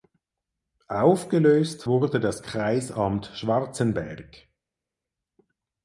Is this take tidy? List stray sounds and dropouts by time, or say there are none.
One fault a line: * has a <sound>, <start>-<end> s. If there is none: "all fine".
all fine